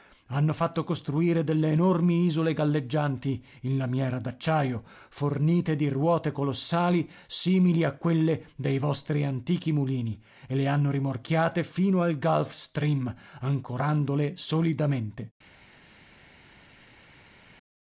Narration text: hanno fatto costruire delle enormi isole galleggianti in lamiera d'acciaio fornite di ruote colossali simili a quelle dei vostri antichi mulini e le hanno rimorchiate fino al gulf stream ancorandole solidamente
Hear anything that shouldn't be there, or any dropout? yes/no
no